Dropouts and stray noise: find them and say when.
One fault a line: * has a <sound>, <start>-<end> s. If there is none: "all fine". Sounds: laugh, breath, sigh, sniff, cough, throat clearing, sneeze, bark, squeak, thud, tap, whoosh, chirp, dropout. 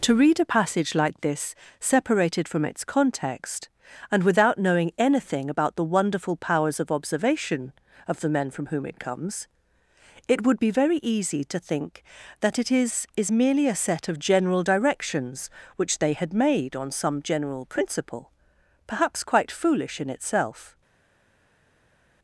all fine